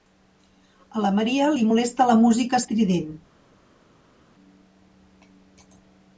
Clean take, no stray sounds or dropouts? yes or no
yes